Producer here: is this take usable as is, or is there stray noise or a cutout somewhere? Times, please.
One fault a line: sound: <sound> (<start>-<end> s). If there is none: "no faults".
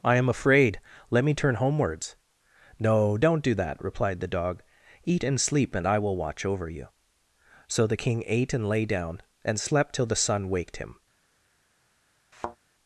sound: thud (12.3-12.6 s)